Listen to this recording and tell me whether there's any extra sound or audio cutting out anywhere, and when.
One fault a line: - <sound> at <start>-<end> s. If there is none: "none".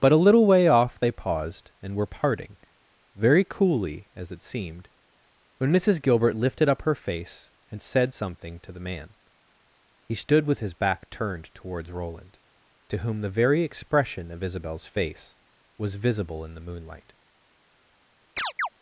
- chirp at 18.4-18.7 s